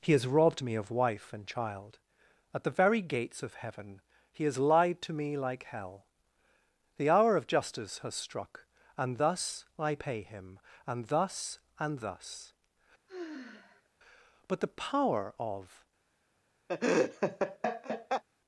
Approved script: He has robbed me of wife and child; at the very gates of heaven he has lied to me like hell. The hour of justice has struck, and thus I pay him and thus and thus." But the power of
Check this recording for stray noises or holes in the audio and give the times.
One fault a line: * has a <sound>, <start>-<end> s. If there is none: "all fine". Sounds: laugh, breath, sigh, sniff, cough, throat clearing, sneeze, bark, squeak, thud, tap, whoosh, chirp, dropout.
* has a sigh, 13.1-13.9 s
* has a laugh, 16.7-18.2 s